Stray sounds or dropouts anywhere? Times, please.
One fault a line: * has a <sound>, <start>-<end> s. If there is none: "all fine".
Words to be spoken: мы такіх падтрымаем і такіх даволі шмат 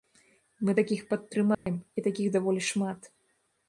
* has a dropout, 1.5-1.7 s